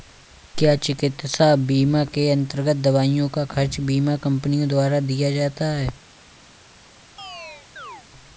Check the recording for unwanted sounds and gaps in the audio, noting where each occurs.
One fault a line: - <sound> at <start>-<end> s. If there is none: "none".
- chirp at 7.2-8.1 s